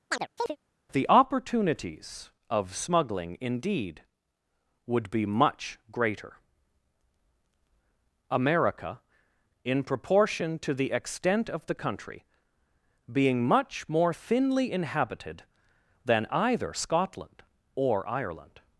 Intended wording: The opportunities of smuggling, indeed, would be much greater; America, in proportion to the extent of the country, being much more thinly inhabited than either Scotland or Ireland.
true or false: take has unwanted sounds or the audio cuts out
true